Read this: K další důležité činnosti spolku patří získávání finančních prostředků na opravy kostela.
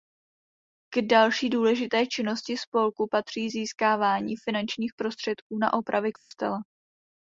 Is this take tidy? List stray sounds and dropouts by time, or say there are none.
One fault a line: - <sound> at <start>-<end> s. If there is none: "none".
- dropout at 6.2-6.3 s